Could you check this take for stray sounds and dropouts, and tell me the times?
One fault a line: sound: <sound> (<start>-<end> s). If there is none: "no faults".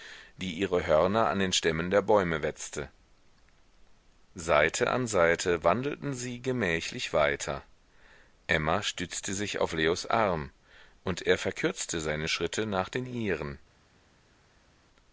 no faults